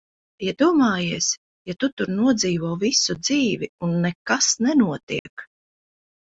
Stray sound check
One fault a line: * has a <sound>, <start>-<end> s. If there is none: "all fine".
* has a dropout, 5.2-5.3 s